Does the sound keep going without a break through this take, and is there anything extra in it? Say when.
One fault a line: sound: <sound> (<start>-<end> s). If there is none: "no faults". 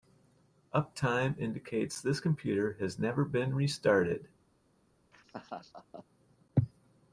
sound: laugh (5.1-6.1 s)